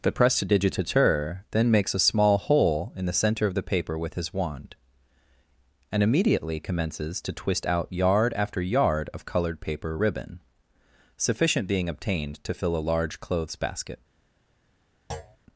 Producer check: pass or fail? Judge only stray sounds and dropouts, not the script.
fail